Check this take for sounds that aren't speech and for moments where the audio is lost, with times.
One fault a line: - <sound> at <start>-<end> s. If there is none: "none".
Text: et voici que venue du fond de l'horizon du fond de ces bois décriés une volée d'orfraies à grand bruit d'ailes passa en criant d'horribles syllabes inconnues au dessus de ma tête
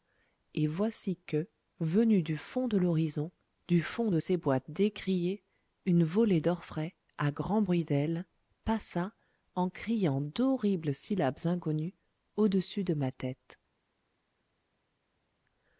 none